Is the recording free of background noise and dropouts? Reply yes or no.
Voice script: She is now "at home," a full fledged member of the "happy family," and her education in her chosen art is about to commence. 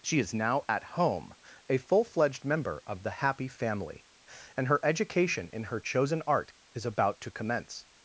yes